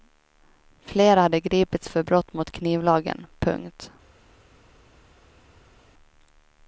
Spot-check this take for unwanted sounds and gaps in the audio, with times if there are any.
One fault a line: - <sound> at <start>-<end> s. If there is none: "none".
none